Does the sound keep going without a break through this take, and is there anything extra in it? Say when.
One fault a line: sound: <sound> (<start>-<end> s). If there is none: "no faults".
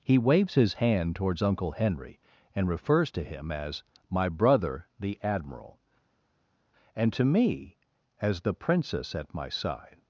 no faults